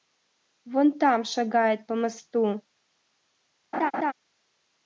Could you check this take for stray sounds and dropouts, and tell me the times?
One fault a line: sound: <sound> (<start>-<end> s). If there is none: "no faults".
sound: laugh (3.7-4.1 s)